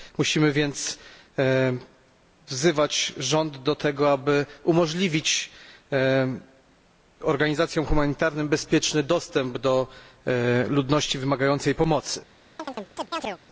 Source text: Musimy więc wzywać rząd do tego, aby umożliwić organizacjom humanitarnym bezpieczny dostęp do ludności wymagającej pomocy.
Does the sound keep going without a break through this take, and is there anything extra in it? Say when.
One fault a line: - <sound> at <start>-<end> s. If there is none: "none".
- chirp at 12.6-13.4 s